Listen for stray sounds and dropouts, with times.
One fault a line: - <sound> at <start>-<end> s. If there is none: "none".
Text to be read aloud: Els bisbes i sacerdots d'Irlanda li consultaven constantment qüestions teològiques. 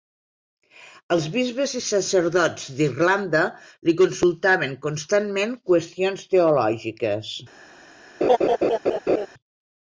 - laugh at 8.2-9.3 s